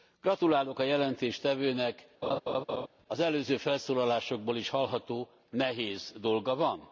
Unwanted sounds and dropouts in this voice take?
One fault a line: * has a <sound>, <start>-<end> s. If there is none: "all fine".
* has a laugh, 2.2-2.9 s